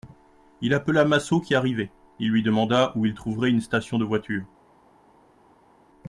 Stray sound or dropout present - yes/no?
no